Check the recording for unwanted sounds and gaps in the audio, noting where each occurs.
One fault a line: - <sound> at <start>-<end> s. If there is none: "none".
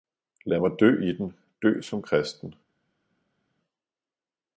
none